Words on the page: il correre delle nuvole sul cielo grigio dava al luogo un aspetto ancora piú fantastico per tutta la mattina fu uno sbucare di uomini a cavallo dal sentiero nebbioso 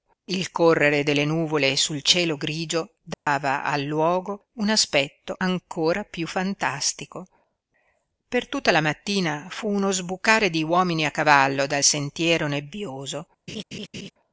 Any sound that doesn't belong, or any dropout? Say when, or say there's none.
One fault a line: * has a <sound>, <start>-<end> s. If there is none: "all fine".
* has a dropout, 3.1-3.3 s
* has a laugh, 13.5-14.1 s